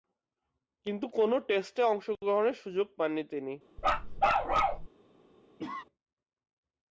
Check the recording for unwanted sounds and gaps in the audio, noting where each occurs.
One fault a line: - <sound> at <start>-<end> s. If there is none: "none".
- bark at 3.8-4.9 s
- cough at 5.6-5.8 s